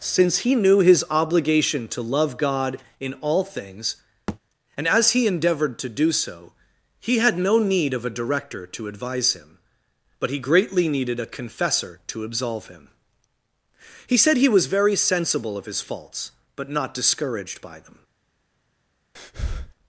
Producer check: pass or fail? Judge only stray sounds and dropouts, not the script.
fail